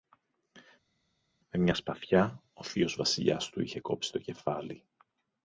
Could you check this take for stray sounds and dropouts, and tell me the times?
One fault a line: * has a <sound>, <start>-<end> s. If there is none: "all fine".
all fine